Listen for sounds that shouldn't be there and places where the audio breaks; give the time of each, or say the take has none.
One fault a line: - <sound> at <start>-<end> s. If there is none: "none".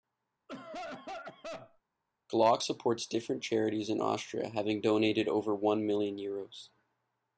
- cough at 0.5-1.8 s